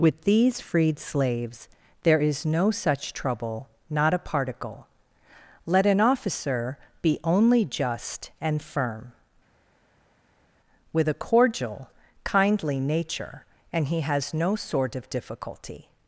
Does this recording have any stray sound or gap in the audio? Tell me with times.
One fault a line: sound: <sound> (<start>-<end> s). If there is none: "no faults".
no faults